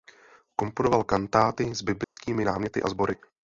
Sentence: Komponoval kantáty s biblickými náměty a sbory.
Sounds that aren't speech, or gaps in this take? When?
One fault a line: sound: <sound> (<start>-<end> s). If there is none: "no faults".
sound: dropout (2.0-2.2 s)